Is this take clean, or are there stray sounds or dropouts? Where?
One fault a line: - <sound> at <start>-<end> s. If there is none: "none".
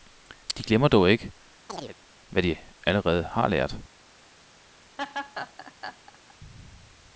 - chirp at 1.7-2.0 s
- laugh at 5.0-6.3 s